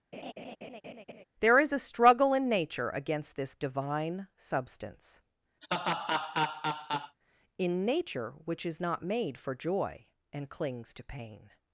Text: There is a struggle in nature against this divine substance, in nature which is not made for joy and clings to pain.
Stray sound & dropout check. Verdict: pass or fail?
fail